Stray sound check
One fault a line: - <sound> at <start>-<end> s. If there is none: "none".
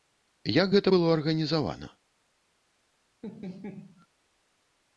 - laugh at 3.2-4.1 s